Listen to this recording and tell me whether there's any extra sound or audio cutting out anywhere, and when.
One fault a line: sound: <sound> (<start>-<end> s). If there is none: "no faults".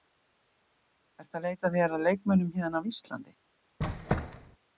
sound: squeak (3.8-4.6 s)